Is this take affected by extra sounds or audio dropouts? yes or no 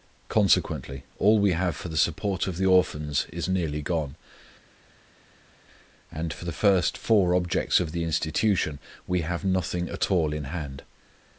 no